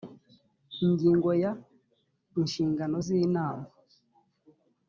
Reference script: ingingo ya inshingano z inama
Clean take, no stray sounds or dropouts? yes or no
yes